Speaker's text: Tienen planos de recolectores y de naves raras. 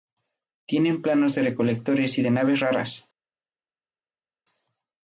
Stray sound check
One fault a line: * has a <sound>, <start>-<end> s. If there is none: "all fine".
all fine